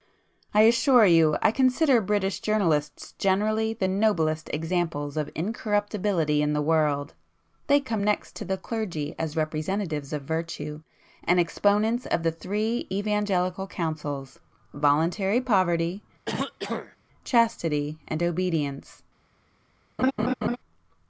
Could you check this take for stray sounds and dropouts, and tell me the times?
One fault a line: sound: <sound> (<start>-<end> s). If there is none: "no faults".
sound: throat clearing (16.2-17.0 s)
sound: laugh (20.0-20.6 s)